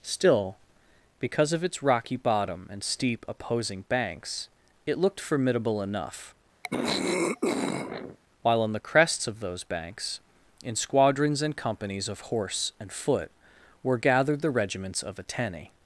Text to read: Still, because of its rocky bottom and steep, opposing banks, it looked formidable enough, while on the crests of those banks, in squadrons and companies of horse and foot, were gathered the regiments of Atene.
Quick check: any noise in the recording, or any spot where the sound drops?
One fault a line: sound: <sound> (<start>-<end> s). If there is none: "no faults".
sound: throat clearing (6.6-8.2 s)